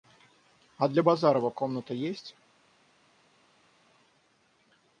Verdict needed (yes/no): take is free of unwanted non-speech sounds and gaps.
yes